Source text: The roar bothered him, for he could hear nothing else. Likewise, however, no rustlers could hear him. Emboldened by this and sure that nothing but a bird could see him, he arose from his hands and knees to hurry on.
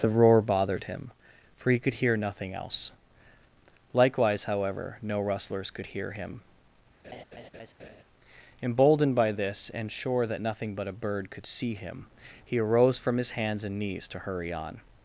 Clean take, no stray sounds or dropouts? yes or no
no